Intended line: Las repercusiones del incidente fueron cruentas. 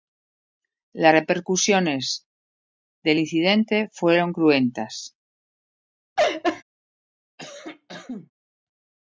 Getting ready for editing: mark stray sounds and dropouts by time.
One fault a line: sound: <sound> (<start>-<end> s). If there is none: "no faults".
sound: laugh (6.2-6.6 s)
sound: cough (7.4-8.3 s)